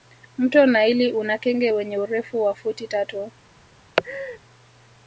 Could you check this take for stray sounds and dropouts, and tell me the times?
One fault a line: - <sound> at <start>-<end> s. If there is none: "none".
- laugh at 4.0-4.4 s